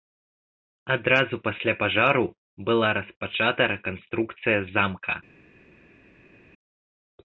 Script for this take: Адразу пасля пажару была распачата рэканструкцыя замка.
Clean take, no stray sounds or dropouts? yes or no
yes